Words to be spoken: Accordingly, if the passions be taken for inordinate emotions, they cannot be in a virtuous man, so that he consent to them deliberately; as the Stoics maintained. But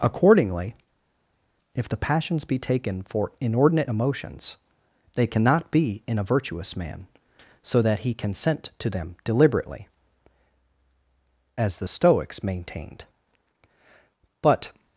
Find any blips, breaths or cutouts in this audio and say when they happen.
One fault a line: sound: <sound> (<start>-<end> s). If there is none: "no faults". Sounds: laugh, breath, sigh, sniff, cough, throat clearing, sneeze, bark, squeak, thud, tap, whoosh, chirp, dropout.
no faults